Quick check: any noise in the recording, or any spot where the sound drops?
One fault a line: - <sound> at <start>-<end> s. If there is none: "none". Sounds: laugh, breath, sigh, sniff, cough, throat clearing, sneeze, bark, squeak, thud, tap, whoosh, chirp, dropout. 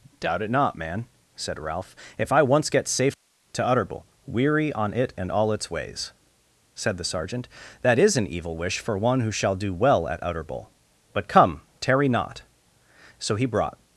none